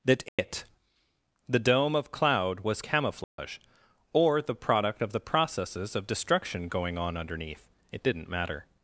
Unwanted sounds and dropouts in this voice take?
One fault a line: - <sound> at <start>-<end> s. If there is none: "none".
- dropout at 0.3-0.4 s
- dropout at 3.2-3.4 s